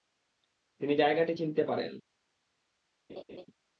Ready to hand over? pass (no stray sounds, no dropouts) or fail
fail